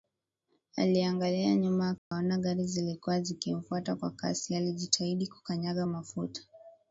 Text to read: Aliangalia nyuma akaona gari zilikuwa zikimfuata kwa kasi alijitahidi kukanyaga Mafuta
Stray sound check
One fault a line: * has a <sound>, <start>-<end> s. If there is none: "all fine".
* has a dropout, 2.0-2.1 s